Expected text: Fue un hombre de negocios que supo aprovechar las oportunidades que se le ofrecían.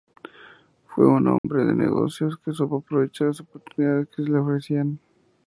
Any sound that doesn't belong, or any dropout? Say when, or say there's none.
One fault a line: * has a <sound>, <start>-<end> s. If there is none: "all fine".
* has a dropout, 1.4-1.4 s